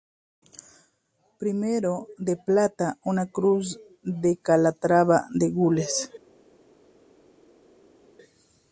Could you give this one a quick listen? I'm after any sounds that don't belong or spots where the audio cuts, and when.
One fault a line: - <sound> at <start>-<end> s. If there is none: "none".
none